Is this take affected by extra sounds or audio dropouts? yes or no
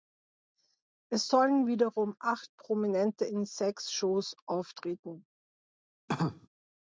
yes